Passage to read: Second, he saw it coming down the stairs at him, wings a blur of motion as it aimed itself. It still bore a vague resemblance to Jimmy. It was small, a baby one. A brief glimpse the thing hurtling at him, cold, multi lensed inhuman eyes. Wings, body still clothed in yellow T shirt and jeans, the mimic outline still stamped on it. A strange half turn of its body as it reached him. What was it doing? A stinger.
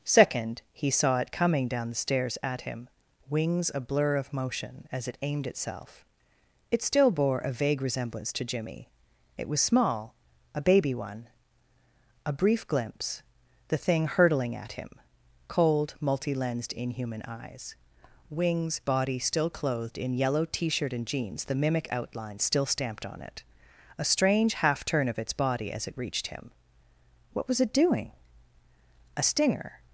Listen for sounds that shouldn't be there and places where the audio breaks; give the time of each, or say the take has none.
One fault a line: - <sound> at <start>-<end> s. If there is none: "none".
none